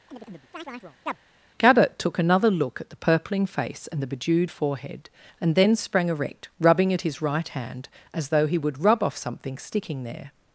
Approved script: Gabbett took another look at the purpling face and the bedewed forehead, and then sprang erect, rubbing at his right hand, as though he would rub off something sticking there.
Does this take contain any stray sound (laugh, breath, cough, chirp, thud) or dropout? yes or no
yes